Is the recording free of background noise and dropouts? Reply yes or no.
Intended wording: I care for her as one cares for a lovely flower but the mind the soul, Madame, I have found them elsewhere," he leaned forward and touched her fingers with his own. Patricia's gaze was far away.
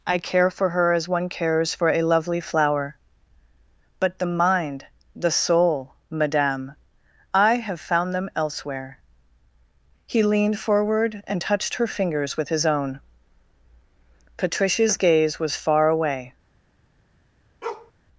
no